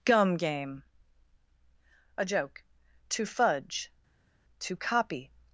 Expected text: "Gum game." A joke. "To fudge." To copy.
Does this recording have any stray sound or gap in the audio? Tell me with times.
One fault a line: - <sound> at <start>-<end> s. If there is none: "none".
none